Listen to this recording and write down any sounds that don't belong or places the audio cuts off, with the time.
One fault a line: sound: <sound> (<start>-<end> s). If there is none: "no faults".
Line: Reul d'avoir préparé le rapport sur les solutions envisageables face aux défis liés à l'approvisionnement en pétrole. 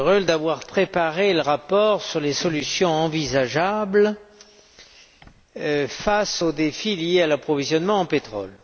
no faults